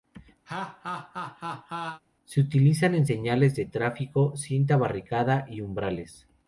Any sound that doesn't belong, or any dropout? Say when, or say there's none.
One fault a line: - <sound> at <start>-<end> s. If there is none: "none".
- laugh at 0.5-2.0 s